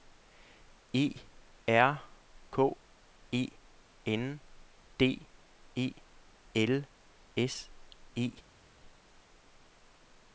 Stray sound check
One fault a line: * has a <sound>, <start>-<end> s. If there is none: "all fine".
all fine